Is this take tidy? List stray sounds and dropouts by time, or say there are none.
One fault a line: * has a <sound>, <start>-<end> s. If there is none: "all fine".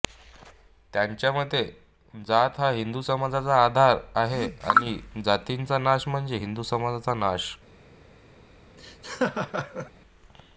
* has a laugh, 8.8-9.9 s